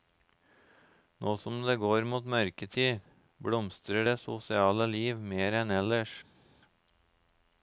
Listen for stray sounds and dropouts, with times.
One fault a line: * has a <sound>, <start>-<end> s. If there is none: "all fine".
all fine